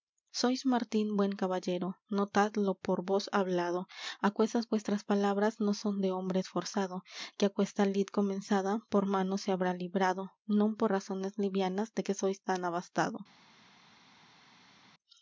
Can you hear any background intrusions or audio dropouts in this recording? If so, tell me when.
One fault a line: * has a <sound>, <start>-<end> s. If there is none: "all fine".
all fine